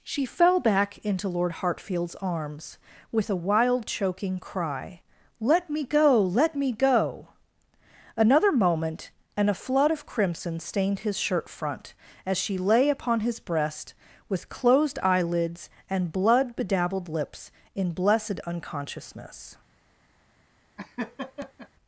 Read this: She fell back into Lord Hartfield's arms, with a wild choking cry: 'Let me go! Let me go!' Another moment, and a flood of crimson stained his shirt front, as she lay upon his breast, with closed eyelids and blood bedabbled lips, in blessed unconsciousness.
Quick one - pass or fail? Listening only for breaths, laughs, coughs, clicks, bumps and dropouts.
fail